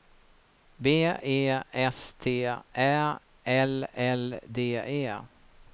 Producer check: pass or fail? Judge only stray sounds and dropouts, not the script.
pass